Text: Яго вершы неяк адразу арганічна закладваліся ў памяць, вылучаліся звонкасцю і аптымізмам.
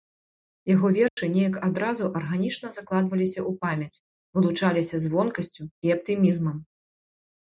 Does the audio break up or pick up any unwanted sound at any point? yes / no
yes